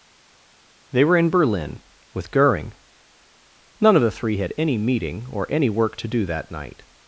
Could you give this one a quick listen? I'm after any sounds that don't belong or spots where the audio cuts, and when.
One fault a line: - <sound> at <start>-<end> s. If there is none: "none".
none